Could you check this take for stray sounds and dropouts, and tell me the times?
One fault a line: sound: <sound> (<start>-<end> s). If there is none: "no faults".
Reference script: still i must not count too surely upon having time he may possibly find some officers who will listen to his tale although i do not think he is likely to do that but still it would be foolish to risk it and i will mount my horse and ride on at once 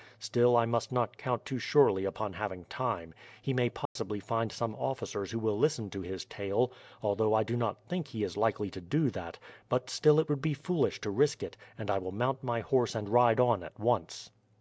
sound: dropout (3.9-4.0 s)